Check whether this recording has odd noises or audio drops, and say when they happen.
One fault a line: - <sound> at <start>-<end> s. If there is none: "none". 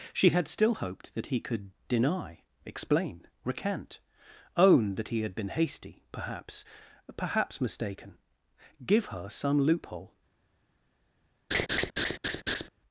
- laugh at 11.5-12.7 s